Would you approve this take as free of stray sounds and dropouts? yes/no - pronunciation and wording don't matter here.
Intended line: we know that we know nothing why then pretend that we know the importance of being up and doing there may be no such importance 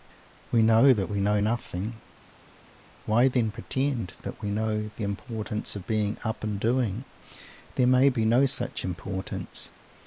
yes